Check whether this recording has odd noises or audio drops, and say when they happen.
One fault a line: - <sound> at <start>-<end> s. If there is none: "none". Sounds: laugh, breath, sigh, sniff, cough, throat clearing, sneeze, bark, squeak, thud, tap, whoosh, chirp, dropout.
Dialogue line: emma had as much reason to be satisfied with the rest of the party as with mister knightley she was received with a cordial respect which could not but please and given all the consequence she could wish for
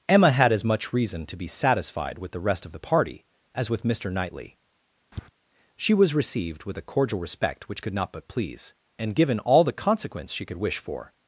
- tap at 5.1-5.3 s